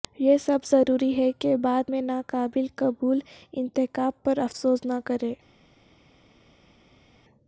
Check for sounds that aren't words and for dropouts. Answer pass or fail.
pass